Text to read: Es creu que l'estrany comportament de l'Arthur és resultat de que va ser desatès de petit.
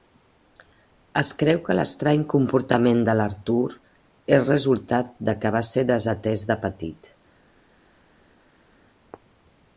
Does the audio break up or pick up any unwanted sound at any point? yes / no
no